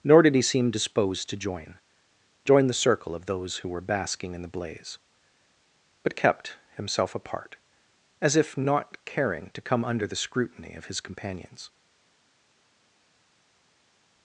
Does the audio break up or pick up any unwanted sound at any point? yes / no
no